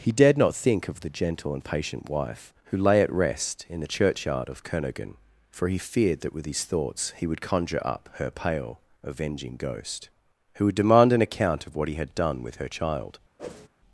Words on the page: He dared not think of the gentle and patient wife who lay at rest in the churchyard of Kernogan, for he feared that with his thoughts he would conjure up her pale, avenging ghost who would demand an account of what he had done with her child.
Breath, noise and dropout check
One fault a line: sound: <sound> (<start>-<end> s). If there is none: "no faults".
sound: whoosh (13.4-13.7 s)